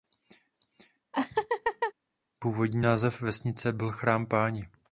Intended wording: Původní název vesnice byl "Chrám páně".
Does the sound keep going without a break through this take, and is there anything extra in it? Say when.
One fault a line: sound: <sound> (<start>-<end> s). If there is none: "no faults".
sound: laugh (1.1-1.9 s)